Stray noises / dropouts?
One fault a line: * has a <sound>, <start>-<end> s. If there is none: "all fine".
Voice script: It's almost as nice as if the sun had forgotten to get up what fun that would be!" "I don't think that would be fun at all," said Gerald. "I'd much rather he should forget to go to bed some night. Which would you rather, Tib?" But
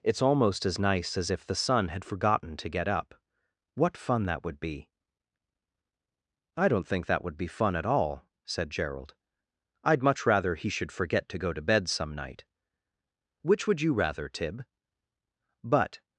all fine